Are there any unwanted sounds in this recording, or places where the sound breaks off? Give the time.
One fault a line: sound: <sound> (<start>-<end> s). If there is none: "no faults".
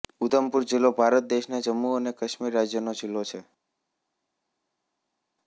no faults